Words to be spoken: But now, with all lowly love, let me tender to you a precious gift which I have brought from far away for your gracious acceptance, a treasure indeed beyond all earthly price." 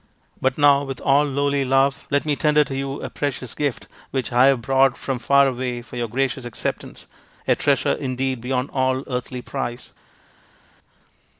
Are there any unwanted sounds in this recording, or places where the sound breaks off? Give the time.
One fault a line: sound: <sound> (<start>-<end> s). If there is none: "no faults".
no faults